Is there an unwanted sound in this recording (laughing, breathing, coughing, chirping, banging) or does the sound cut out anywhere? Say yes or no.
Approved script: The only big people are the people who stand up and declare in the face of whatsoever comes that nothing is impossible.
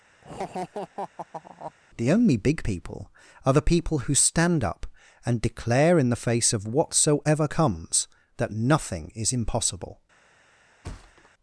yes